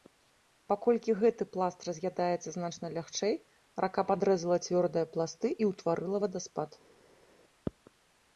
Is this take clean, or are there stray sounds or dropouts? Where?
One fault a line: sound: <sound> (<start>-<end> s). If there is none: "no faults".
no faults